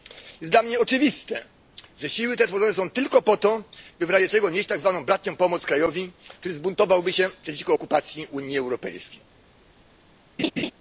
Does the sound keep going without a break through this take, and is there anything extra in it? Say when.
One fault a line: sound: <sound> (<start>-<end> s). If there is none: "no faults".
sound: laugh (10.4-10.7 s)